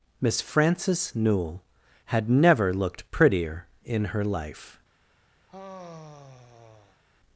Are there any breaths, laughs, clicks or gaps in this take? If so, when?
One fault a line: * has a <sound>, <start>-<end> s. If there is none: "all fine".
* has a sigh, 5.5-7.0 s